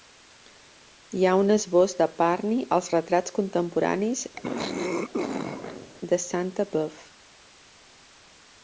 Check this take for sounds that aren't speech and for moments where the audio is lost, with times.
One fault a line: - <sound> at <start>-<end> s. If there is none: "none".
- throat clearing at 4.4-5.9 s